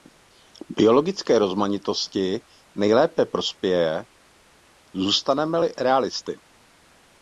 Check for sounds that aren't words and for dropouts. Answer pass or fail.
pass